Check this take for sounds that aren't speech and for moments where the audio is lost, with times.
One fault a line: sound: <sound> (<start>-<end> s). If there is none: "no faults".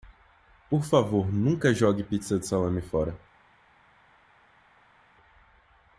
no faults